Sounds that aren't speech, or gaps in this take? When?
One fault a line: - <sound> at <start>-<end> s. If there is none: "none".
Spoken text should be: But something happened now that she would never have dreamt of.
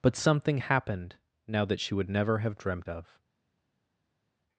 none